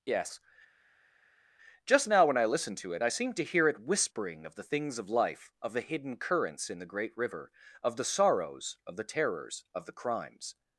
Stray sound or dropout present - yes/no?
no